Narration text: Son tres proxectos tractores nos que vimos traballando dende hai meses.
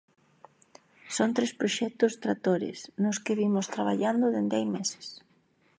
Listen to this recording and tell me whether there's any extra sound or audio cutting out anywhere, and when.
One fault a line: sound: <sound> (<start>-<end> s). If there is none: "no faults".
no faults